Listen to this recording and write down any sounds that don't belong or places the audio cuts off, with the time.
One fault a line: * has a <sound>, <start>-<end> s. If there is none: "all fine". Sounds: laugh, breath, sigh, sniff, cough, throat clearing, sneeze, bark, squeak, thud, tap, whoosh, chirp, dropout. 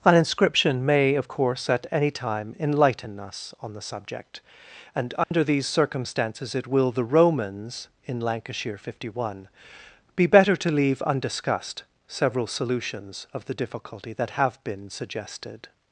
* has a dropout, 5.2-5.3 s